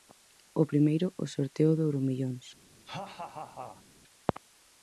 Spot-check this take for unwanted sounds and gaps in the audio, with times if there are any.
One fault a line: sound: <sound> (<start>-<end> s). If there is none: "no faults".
sound: laugh (2.8-3.8 s)